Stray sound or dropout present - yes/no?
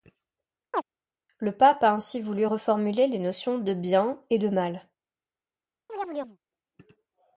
yes